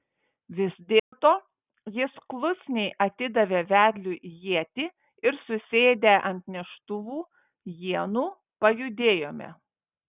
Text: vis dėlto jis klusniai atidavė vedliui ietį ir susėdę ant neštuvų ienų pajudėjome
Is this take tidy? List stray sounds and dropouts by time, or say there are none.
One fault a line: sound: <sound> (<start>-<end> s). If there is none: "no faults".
sound: dropout (1.0-1.1 s)